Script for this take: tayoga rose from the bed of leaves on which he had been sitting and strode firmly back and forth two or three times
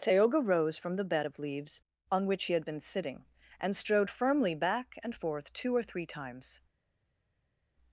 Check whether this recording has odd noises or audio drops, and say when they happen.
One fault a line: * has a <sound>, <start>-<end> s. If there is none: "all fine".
all fine